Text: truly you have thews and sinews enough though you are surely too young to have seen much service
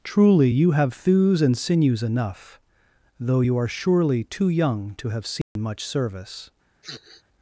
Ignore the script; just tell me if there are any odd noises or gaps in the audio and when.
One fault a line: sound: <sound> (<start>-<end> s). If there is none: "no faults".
sound: dropout (5.4-5.6 s)
sound: sniff (6.8-7.2 s)